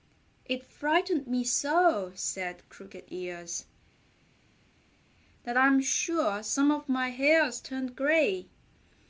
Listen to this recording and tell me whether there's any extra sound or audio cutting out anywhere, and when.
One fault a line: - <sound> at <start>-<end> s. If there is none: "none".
none